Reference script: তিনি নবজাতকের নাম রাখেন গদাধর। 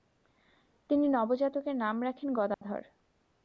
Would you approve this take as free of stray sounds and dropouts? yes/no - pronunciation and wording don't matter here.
no